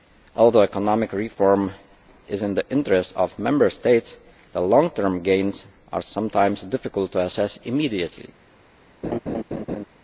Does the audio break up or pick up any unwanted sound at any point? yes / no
yes